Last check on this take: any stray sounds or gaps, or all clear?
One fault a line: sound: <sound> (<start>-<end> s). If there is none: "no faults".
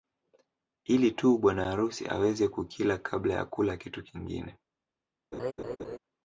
sound: laugh (5.3-6.0 s)